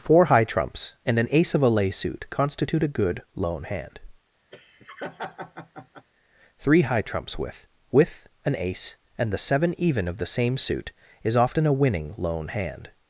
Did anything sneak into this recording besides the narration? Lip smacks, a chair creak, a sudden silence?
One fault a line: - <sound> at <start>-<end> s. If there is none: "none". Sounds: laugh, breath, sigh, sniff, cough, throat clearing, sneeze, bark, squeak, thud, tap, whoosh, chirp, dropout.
- laugh at 4.5-6.1 s